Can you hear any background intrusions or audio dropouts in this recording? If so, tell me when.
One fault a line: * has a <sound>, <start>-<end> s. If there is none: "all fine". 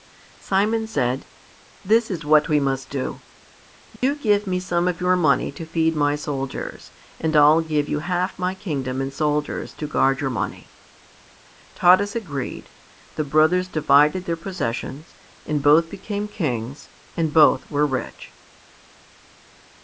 * has a dropout, 4.0-4.0 s